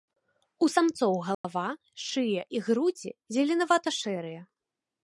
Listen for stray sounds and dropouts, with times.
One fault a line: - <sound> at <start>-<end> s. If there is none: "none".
- dropout at 1.3-1.4 s